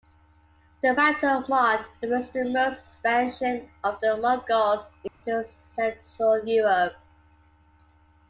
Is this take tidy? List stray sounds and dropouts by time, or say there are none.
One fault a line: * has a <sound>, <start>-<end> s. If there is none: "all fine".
* has a dropout, 5.1-5.2 s